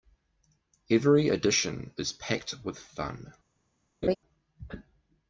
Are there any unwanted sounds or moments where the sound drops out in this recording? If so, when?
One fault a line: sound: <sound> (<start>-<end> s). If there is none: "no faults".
sound: laugh (4.0-4.2 s)